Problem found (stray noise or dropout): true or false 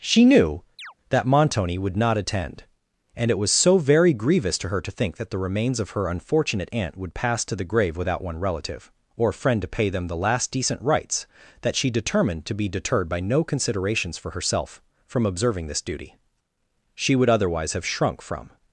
true